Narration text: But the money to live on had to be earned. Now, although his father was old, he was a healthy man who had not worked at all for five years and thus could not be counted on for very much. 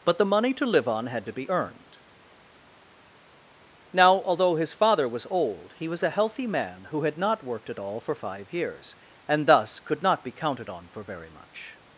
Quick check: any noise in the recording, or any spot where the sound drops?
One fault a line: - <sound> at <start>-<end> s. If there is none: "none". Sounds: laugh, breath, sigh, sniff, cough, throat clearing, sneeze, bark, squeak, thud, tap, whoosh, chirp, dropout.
none